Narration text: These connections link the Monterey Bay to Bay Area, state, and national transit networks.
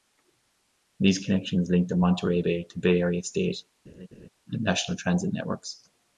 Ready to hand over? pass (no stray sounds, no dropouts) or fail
fail